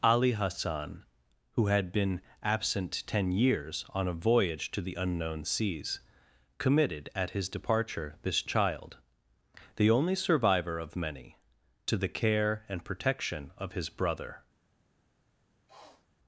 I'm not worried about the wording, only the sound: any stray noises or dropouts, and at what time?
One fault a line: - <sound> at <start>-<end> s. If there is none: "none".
- sniff at 15.7-16.1 s